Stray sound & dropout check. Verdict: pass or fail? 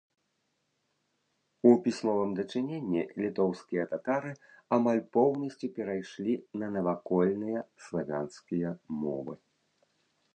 pass